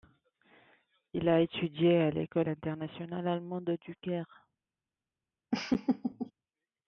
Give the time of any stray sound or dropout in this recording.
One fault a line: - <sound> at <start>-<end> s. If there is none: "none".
- laugh at 5.5-6.3 s